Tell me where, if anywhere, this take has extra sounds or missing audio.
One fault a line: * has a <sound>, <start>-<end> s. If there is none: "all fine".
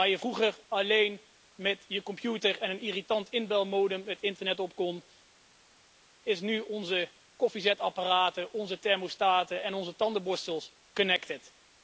all fine